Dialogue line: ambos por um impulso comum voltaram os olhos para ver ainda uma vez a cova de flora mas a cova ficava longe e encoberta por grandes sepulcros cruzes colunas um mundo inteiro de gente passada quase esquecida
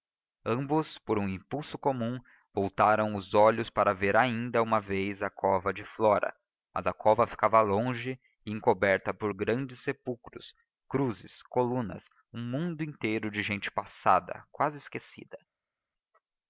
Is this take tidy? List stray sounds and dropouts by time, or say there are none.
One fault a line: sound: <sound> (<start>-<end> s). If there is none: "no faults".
no faults